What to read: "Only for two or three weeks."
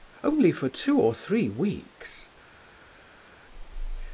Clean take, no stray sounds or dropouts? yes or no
yes